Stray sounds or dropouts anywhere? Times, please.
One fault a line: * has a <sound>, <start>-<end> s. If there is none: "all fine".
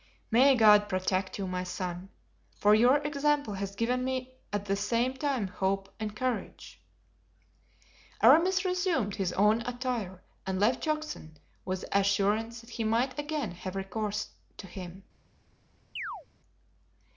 * has a chirp, 16.0-16.3 s